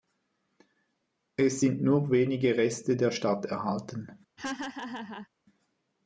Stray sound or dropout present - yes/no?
yes